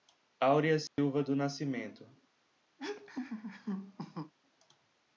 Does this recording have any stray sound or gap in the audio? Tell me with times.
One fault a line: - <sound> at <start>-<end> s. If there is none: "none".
- dropout at 0.9-1.0 s
- laugh at 2.8-4.3 s